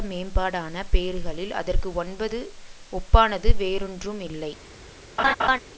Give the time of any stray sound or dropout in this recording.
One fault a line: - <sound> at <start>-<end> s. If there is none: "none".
- laugh at 5.2-5.6 s